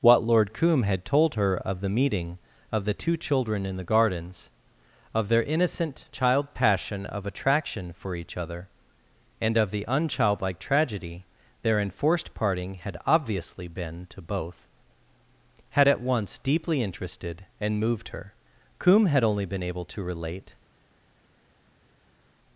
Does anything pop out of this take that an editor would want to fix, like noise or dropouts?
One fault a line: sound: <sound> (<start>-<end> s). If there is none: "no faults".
no faults